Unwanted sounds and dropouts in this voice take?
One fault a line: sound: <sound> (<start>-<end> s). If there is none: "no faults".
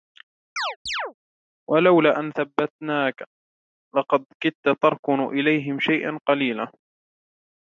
sound: chirp (0.6-1.1 s)